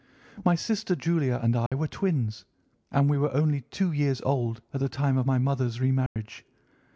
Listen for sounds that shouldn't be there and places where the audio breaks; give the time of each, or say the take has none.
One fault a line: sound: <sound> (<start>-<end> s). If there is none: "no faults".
sound: dropout (1.7-1.7 s)
sound: dropout (6.1-6.2 s)